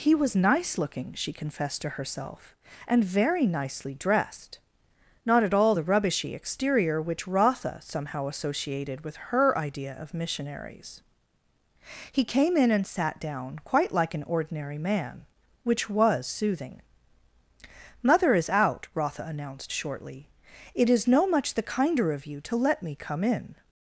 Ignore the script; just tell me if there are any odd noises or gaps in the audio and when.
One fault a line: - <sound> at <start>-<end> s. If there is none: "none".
none